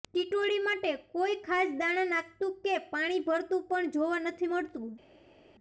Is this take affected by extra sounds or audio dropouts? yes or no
no